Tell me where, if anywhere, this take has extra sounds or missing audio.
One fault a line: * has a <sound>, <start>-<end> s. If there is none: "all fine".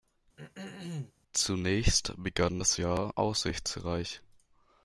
* has a throat clearing, 0.4-1.1 s